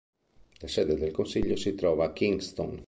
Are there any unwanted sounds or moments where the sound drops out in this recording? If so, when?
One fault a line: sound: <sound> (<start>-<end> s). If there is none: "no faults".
no faults